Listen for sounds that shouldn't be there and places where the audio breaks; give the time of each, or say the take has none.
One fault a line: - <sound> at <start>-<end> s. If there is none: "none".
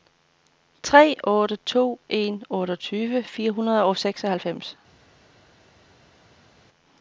none